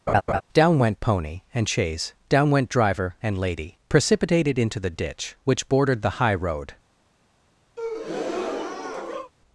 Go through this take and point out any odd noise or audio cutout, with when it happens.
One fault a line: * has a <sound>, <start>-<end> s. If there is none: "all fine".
* has a laugh, 0.1-0.4 s
* has a breath, 7.8-9.3 s